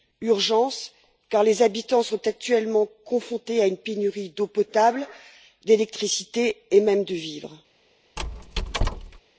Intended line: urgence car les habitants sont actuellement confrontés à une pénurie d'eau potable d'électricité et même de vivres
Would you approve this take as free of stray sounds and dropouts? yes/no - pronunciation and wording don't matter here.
no